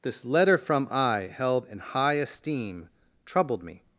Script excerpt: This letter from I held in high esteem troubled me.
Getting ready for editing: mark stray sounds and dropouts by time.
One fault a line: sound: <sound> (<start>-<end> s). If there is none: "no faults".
no faults